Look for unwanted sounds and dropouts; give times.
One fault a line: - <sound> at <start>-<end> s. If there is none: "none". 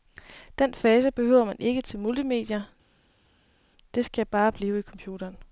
none